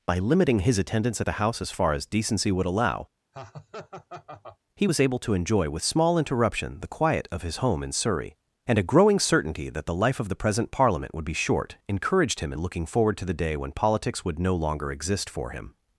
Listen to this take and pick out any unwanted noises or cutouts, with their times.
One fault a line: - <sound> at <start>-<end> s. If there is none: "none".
- laugh at 3.3-4.6 s